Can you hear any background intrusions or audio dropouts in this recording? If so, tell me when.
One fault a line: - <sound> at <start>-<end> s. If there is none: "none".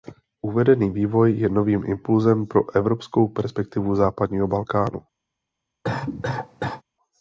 - cough at 5.8-6.8 s